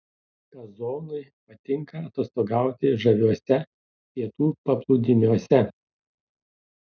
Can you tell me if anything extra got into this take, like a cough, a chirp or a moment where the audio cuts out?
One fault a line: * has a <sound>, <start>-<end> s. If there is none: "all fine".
all fine